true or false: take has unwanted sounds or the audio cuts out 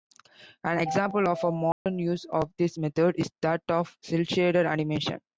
true